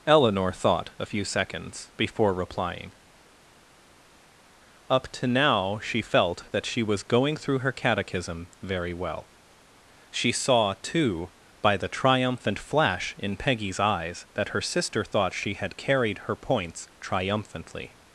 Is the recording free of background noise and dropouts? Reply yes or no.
yes